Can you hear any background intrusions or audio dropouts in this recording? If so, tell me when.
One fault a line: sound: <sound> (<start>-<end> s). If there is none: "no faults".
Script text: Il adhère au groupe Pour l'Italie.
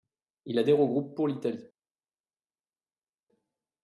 no faults